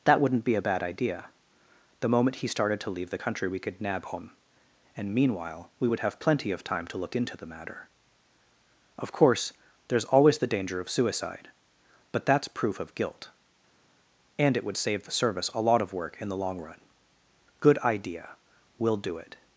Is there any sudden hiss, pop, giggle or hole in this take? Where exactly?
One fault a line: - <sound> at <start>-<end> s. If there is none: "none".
none